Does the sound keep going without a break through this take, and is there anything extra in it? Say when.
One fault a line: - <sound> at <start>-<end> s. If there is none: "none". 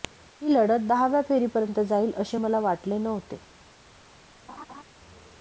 - laugh at 4.5-4.8 s